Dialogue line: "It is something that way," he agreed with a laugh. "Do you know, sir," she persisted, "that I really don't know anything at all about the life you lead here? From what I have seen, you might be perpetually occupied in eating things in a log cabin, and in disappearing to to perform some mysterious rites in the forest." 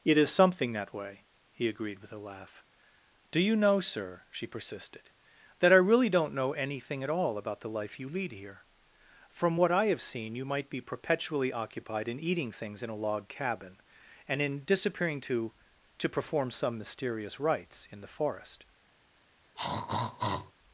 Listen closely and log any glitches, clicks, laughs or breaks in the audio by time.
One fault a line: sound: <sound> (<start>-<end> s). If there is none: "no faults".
sound: throat clearing (19.6-20.5 s)